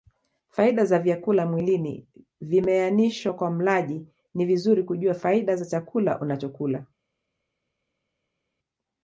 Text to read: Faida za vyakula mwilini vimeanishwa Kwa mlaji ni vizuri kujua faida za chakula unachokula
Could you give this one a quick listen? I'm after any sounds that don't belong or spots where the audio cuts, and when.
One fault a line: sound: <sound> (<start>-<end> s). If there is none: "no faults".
no faults